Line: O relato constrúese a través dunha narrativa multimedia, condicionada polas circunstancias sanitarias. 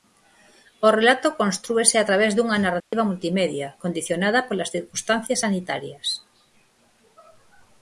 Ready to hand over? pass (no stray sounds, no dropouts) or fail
fail